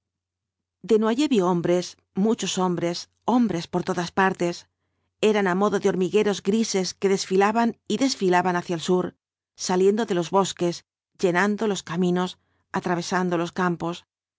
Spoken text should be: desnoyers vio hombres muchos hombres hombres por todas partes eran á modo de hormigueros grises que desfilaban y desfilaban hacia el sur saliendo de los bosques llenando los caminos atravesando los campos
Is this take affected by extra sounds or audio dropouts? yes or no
no